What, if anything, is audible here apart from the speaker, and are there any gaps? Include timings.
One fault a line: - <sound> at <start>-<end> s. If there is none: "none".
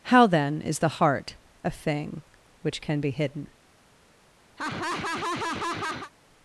- laugh at 4.6-6.1 s